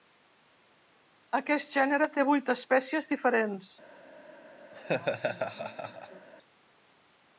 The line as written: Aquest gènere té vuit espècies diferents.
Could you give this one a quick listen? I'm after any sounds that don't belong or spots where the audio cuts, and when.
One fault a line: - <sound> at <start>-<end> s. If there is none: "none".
- laugh at 4.7-6.3 s